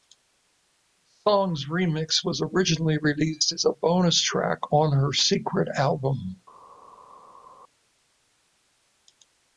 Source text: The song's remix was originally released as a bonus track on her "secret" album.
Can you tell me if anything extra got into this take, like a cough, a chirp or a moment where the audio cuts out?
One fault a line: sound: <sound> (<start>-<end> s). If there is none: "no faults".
no faults